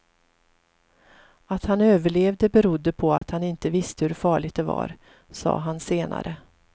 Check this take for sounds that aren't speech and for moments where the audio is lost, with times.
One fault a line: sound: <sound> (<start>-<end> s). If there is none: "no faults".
sound: dropout (3.2-3.2 s)